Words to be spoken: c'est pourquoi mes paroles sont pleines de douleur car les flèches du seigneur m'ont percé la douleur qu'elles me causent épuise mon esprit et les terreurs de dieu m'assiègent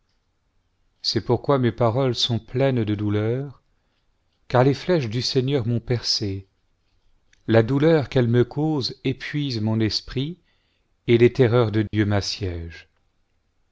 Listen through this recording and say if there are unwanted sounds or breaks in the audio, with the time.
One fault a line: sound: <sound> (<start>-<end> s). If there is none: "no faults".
sound: dropout (11.9-11.9 s)